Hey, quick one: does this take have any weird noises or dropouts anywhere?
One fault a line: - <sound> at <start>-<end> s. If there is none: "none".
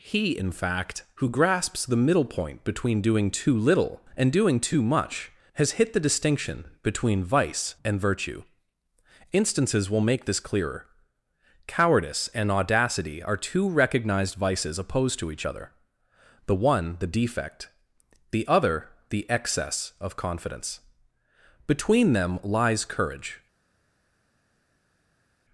none